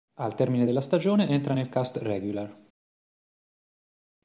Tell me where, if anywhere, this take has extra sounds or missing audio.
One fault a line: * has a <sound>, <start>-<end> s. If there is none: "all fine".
all fine